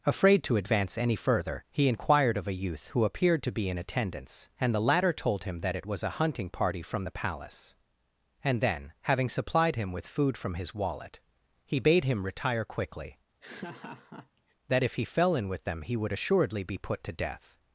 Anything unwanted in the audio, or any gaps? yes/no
yes